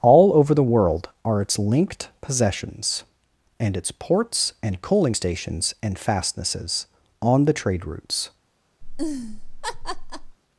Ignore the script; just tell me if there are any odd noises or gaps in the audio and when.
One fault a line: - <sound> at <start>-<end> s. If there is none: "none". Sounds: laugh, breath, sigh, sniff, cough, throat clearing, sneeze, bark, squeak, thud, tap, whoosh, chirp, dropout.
- laugh at 8.8-10.4 s